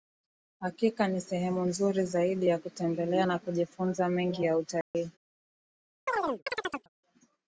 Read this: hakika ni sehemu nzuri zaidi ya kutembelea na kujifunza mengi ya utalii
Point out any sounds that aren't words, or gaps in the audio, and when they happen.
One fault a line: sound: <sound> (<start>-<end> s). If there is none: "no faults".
sound: dropout (4.8-4.9 s)
sound: chirp (6.1-6.9 s)